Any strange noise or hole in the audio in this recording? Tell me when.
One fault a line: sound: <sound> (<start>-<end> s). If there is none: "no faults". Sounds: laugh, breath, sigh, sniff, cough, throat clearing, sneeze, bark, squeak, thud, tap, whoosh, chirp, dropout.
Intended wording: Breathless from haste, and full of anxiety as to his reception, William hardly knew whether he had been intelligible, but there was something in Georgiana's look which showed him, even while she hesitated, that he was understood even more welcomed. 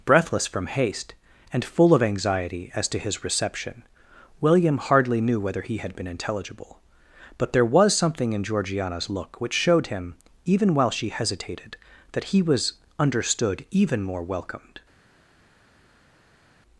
no faults